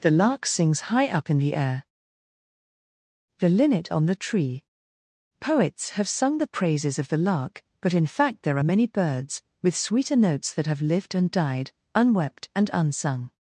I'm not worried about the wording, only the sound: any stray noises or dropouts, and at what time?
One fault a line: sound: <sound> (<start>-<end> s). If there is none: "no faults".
no faults